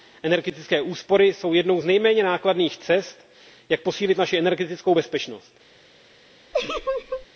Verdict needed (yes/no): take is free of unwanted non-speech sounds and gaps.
no